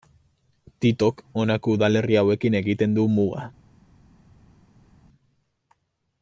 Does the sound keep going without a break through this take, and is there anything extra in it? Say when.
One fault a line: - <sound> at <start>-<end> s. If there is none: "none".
none